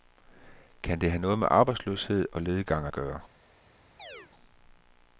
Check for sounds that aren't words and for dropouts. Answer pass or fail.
fail